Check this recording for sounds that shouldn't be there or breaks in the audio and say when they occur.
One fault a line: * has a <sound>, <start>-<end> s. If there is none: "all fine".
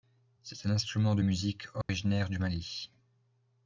* has a dropout, 1.8-1.9 s